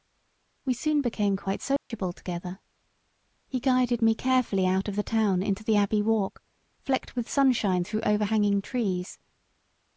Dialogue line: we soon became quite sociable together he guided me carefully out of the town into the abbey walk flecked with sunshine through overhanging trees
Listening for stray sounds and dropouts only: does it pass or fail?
fail